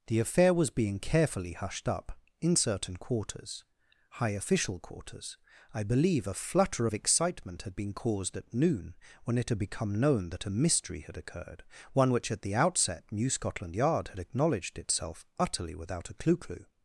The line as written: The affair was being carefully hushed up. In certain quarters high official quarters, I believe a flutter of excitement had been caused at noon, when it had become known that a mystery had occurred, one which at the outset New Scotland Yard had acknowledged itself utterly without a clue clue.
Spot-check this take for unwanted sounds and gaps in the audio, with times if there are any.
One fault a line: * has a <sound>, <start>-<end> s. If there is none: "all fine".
all fine